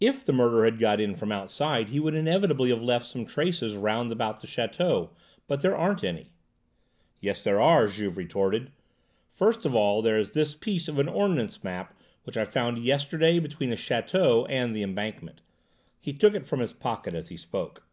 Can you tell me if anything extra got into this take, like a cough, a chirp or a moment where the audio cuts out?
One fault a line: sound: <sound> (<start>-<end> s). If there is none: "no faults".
no faults